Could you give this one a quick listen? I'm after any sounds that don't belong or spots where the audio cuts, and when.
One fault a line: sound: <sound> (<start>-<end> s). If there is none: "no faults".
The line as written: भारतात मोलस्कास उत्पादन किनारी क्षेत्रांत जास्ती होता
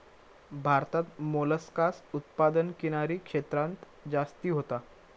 no faults